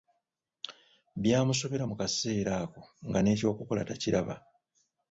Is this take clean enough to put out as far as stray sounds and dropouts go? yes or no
yes